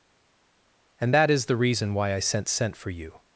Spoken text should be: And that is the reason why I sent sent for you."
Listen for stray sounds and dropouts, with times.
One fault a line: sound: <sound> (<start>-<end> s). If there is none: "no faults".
no faults